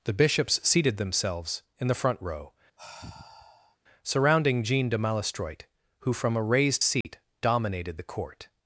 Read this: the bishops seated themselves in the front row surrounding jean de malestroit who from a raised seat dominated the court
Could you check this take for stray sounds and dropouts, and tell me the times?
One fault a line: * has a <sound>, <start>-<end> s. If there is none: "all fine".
* has a sigh, 2.8-3.8 s
* has a dropout, 7.0-7.0 s